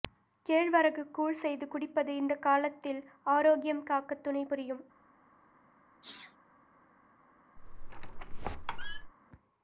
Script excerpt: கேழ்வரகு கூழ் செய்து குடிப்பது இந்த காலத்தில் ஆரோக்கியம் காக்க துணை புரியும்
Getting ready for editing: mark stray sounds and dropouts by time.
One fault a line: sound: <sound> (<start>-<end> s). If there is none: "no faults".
sound: sneeze (6.0-6.4 s)
sound: squeak (7.6-9.1 s)